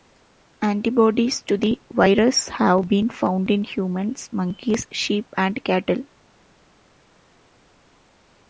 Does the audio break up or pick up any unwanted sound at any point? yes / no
no